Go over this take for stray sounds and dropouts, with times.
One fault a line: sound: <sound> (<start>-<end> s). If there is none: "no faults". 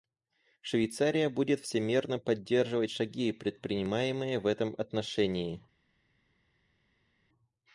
no faults